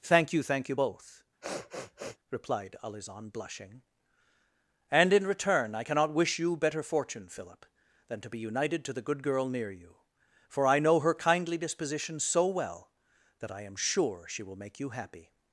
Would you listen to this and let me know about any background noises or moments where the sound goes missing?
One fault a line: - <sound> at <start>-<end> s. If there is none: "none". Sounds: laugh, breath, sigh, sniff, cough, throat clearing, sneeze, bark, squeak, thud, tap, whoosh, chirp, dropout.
- sniff at 1.4-2.2 s